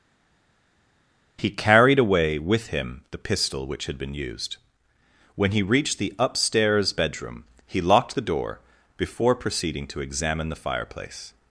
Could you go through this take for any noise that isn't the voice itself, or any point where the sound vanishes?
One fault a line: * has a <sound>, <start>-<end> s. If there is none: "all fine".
all fine